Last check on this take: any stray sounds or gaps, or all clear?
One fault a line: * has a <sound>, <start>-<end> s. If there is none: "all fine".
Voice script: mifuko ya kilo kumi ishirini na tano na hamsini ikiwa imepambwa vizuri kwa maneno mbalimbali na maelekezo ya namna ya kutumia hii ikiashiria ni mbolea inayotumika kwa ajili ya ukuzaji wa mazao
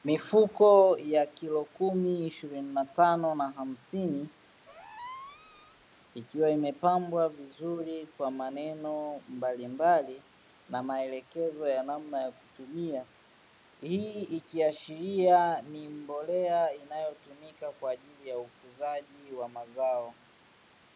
* has a squeak, 4.7-5.8 s